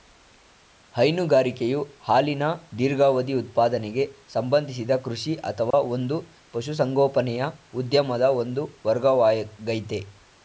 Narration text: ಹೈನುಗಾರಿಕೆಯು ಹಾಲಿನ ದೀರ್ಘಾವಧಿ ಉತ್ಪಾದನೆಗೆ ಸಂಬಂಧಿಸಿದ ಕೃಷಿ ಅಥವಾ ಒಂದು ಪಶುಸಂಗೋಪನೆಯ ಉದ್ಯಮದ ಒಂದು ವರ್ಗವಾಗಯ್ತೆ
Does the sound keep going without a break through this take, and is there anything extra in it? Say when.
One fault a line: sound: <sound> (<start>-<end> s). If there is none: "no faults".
sound: dropout (5.7-5.7 s)